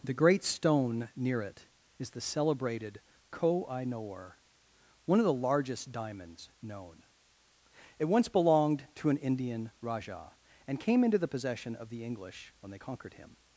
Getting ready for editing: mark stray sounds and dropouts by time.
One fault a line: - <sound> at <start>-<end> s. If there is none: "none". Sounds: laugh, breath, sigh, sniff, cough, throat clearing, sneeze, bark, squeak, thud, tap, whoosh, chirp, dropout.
none